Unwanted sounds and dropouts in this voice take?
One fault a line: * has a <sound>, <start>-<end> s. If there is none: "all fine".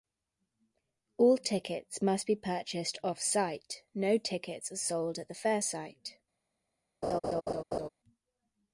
* has a laugh, 7.0-7.9 s